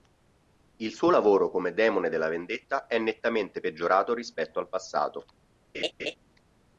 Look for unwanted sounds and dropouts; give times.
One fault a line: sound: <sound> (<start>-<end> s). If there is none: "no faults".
sound: laugh (5.7-6.2 s)